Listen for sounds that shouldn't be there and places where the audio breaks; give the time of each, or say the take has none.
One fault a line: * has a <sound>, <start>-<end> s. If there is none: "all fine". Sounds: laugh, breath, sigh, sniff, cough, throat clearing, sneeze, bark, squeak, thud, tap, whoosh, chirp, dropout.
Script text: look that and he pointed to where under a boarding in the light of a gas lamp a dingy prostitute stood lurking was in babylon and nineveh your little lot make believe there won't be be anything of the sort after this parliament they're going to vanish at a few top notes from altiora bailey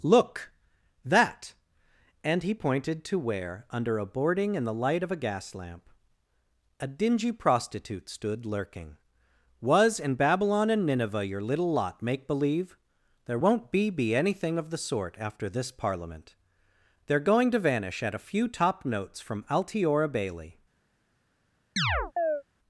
* has a chirp, 21.8-22.4 s